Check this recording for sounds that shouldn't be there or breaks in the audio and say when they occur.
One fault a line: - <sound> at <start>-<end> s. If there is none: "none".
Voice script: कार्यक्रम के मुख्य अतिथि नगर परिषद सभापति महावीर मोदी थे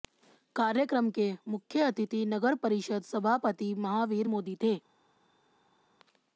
none